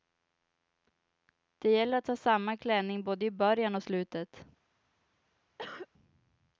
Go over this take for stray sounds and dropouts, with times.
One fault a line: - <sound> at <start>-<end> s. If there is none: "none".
- cough at 5.6-5.9 s